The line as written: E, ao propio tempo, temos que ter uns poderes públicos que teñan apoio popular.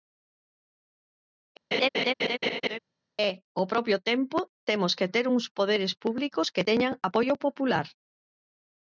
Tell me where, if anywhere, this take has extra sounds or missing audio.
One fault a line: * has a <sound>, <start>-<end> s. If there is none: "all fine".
* has a laugh, 1.7-2.8 s